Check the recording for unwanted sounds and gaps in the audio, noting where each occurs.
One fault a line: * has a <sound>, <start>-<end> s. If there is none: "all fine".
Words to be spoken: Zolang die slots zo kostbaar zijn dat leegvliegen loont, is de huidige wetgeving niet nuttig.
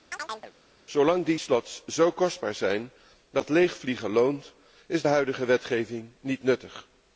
* has a chirp, 0.1-0.5 s